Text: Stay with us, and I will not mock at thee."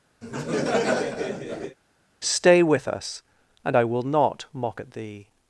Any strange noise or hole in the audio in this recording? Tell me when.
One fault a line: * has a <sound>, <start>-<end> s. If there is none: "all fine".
* has a laugh, 0.2-1.8 s